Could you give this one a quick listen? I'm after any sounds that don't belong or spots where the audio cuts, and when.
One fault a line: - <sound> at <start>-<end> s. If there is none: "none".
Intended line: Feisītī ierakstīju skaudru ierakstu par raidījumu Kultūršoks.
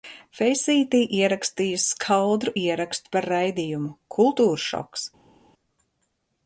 none